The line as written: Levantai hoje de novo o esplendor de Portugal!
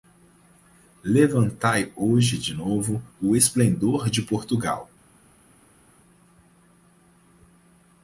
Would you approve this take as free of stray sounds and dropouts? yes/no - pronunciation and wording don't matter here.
yes